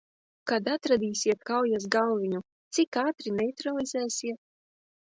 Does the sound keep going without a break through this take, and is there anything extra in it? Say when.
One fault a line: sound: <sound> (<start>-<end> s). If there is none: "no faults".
no faults